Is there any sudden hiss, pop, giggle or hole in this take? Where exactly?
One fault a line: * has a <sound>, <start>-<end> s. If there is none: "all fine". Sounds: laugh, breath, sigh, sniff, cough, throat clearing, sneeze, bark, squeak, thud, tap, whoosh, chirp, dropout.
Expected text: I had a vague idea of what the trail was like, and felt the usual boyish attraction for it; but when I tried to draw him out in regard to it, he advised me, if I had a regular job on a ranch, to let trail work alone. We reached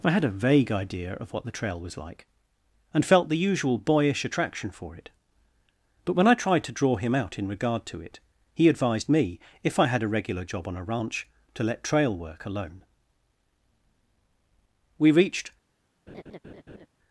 * has a laugh, 16.1-16.9 s